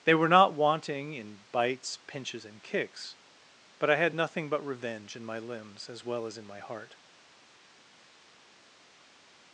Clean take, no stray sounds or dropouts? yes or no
yes